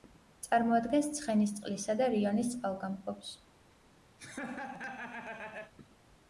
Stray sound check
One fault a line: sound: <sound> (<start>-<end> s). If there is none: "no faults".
sound: laugh (4.2-5.7 s)